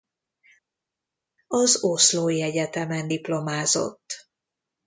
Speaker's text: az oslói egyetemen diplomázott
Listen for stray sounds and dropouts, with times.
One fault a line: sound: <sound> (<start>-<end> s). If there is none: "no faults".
no faults